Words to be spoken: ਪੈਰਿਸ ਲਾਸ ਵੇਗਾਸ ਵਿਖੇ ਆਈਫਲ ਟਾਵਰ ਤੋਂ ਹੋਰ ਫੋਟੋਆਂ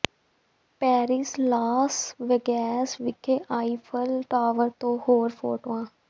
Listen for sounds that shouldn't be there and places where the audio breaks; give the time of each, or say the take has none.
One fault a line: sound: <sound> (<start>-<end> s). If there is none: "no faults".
no faults